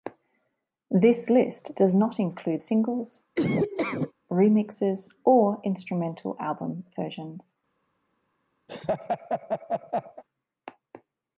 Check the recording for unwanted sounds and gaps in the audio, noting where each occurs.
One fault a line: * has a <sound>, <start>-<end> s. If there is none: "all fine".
* has a laugh, 3.4-4.1 s
* has a laugh, 8.7-10.2 s